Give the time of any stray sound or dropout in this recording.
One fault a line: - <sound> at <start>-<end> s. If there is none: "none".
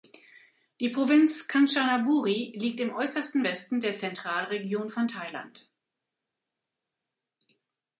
none